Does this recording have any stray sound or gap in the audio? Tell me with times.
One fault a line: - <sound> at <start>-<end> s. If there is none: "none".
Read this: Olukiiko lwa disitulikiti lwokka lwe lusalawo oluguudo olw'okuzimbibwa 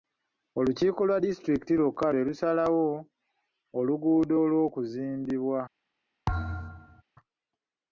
- thud at 6.3-7.0 s